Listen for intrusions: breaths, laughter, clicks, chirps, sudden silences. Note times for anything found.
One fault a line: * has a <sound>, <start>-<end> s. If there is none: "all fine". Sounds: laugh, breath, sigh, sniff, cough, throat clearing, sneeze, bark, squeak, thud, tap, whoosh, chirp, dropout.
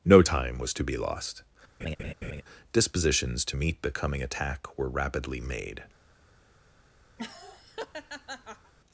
* has a laugh, 1.8-2.4 s
* has a laugh, 7.2-8.7 s